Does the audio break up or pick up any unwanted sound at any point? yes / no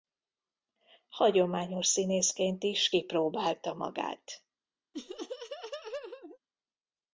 yes